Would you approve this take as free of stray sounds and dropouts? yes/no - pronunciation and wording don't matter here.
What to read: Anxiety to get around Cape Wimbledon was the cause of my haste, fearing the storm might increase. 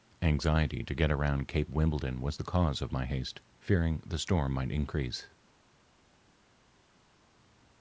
yes